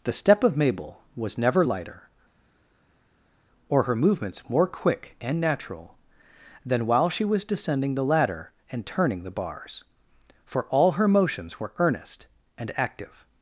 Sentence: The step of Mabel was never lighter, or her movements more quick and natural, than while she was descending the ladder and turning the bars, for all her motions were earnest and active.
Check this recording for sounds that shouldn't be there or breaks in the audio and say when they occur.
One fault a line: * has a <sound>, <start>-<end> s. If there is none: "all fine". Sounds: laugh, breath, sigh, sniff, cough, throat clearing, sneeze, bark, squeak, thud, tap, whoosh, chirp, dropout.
all fine